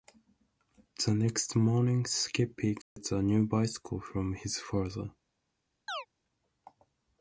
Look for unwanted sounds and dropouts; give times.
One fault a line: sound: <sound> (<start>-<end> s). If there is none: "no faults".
sound: dropout (2.8-3.0 s)
sound: chirp (5.9-6.1 s)